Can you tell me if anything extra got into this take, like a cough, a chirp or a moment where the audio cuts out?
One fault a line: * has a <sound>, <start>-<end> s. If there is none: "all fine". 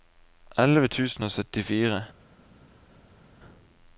all fine